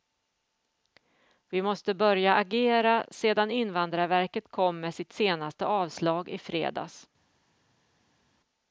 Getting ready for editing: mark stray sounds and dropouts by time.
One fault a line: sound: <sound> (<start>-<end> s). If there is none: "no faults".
no faults